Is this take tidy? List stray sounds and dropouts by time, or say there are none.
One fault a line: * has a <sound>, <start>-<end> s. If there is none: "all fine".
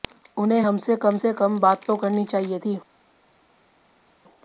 all fine